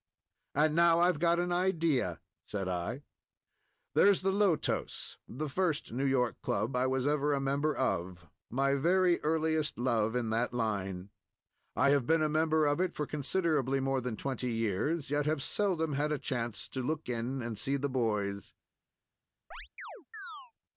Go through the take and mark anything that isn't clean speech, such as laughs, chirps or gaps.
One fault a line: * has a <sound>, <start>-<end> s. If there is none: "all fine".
* has a chirp, 19.5-20.5 s